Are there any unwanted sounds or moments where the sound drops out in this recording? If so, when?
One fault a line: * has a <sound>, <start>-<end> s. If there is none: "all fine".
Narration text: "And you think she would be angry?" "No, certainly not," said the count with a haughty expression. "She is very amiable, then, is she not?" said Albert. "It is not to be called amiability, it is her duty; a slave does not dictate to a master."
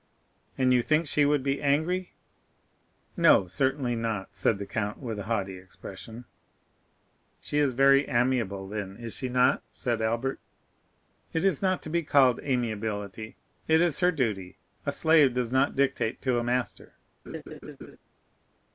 * has a laugh, 17.3-18.0 s